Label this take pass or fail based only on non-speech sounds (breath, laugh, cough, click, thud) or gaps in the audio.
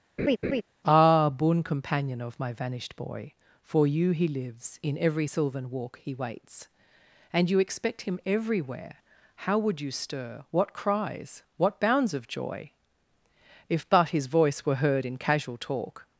fail